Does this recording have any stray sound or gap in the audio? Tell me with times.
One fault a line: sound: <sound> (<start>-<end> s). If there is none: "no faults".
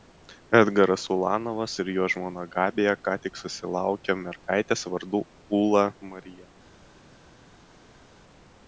no faults